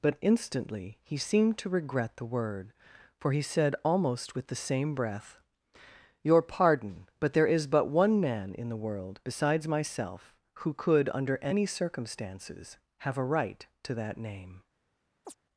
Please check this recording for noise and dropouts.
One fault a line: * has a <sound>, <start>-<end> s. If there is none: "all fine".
* has a chirp, 15.2-15.4 s